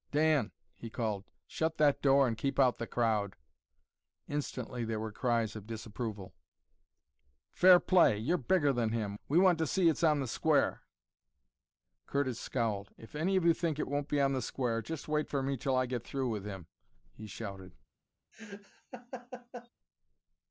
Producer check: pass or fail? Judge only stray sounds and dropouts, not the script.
fail